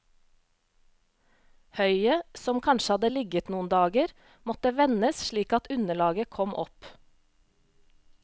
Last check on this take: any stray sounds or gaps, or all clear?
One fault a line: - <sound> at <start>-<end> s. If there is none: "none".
none